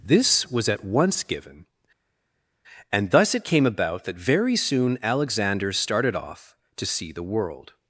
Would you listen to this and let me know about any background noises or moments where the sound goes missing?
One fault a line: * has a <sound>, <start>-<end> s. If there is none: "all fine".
all fine